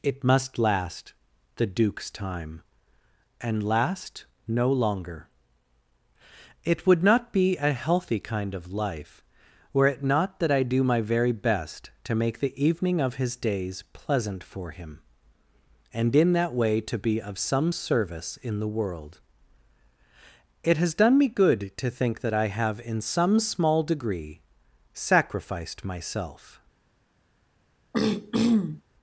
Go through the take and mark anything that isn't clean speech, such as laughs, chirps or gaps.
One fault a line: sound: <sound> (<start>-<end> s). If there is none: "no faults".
sound: throat clearing (27.9-28.8 s)